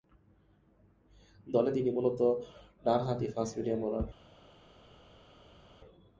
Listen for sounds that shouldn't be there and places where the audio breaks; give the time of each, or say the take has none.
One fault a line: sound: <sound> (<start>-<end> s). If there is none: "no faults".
no faults